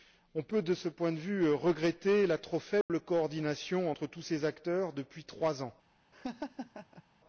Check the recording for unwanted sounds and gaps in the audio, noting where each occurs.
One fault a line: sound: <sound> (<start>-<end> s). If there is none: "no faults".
sound: dropout (2.8-2.9 s)
sound: laugh (6.1-7.0 s)